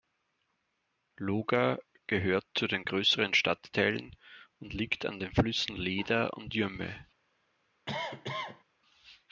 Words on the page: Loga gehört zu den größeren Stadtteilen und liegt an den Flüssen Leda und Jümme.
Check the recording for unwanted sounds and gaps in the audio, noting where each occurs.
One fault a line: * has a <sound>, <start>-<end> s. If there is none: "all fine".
* has a cough, 7.9-8.6 s